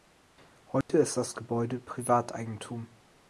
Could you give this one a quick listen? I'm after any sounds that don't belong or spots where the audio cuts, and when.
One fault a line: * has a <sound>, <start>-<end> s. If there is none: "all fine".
* has a dropout, 0.8-0.9 s